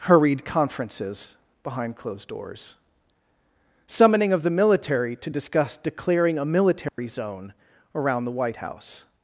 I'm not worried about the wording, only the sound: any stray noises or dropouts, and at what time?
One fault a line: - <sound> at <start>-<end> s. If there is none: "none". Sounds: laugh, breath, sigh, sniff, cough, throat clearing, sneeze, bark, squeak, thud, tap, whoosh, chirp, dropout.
- dropout at 6.9-7.0 s